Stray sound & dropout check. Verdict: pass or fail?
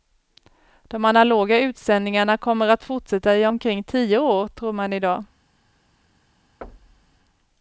fail